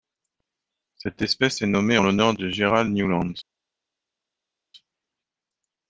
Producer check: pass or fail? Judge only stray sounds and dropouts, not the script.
pass